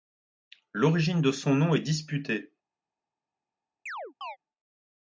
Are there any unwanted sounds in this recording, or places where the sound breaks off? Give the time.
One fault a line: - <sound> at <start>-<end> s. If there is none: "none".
- chirp at 3.9-4.4 s